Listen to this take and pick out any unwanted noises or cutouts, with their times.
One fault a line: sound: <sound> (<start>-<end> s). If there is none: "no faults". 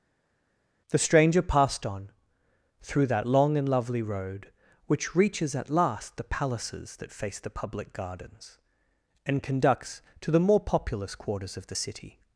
no faults